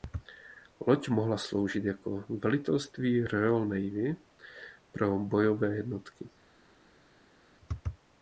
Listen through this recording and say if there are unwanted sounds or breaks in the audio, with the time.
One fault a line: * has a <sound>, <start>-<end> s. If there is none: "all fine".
all fine